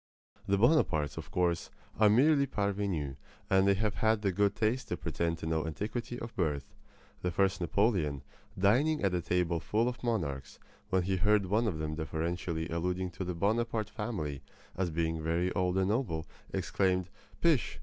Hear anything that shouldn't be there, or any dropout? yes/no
no